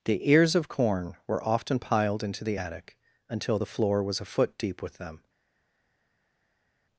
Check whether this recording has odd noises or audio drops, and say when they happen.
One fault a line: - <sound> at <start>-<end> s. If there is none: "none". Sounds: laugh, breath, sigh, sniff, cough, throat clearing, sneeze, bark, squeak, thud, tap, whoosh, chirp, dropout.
none